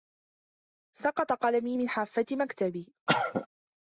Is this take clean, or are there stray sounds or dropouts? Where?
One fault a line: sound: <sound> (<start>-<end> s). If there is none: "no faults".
sound: cough (3.1-3.5 s)